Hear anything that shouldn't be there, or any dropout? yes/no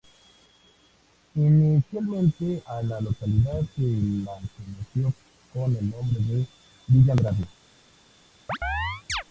yes